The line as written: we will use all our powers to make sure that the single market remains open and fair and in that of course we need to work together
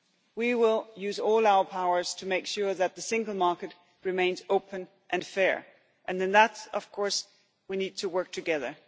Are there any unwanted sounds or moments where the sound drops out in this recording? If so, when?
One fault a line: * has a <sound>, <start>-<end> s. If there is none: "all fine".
all fine